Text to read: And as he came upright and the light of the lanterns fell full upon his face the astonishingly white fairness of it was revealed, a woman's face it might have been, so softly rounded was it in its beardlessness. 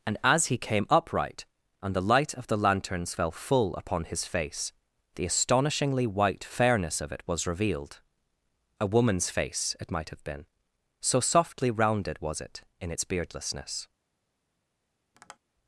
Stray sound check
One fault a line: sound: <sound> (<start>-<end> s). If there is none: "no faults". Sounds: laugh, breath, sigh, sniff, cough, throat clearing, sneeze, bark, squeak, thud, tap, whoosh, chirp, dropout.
sound: tap (15.1-15.4 s)